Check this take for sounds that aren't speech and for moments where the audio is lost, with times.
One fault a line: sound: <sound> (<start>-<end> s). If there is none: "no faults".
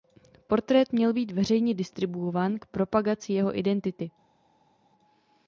no faults